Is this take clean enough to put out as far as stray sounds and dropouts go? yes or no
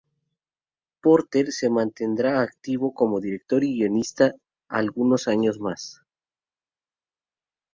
yes